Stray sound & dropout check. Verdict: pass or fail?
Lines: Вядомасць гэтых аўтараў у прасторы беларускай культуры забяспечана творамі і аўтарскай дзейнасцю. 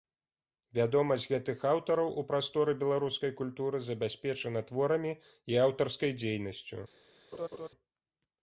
fail